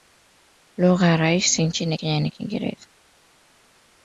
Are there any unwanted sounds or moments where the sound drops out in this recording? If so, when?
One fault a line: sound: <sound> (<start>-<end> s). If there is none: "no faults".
no faults